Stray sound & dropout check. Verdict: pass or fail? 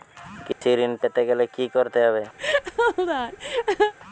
fail